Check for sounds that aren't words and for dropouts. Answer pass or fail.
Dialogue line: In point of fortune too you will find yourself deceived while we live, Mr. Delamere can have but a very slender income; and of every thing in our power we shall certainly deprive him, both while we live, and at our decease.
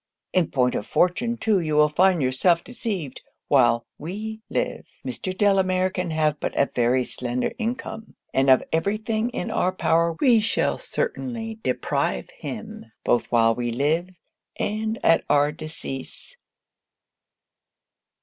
pass